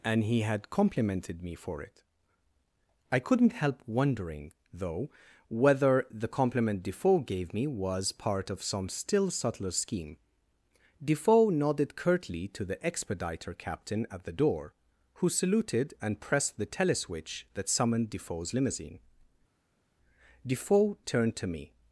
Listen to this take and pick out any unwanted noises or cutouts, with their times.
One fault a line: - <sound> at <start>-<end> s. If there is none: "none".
none